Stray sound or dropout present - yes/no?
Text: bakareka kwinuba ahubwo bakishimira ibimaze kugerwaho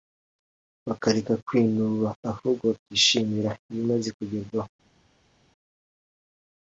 no